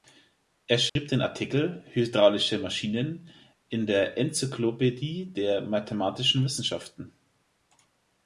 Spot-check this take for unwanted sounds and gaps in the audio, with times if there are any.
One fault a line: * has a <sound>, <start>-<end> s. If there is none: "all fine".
* has a dropout, 0.9-1.0 s